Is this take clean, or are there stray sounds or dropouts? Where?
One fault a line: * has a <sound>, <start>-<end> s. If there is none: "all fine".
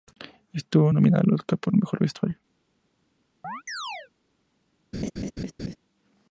* has a chirp, 3.4-4.1 s
* has a laugh, 4.9-5.8 s